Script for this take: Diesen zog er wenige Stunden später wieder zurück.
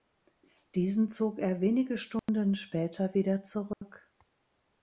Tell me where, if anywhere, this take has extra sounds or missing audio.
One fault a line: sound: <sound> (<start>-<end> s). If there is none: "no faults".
sound: dropout (2.2-2.3 s)
sound: dropout (3.7-3.8 s)